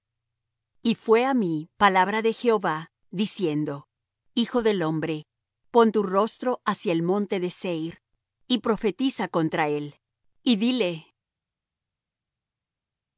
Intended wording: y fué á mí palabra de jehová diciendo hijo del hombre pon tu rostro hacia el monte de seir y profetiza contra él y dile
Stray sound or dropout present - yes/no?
no